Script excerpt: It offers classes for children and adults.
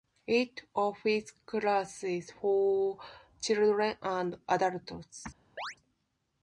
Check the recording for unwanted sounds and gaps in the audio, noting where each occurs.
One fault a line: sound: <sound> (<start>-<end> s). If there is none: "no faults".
sound: chirp (5.6-5.8 s)